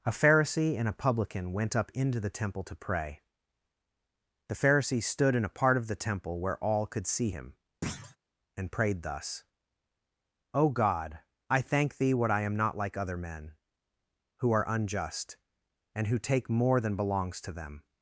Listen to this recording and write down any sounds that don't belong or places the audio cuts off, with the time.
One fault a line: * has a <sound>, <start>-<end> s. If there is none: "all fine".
* has a thud, 7.8-8.2 s